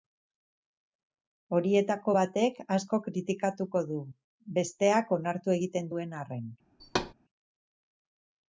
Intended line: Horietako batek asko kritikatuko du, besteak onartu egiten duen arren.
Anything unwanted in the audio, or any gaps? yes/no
yes